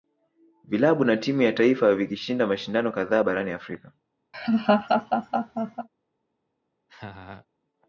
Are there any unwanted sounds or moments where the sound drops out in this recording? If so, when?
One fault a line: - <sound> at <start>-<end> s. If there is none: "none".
- laugh at 4.3-5.9 s
- laugh at 6.9-7.5 s